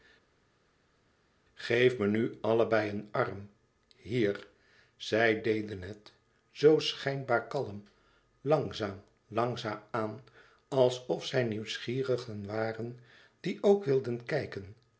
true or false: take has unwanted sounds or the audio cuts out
false